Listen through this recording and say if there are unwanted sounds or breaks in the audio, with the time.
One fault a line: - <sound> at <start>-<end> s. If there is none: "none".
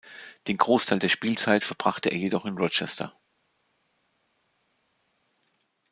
none